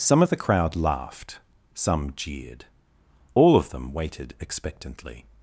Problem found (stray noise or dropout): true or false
false